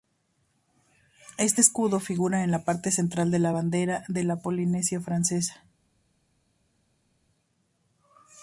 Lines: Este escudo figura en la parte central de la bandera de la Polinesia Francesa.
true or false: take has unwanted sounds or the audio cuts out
false